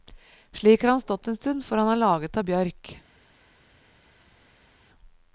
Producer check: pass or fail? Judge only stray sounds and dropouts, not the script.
pass